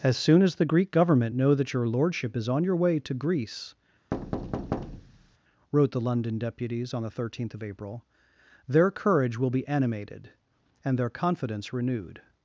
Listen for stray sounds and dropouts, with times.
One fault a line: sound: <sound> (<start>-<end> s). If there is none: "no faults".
sound: thud (4.1-5.4 s)